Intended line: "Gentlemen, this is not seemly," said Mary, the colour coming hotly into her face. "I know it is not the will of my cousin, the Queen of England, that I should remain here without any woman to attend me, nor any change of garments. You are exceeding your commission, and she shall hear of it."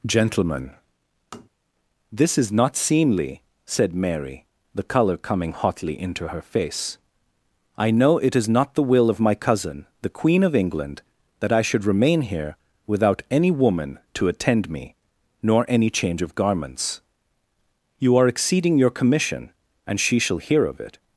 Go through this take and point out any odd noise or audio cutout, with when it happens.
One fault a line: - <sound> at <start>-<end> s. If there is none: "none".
- tap at 1.3-1.5 s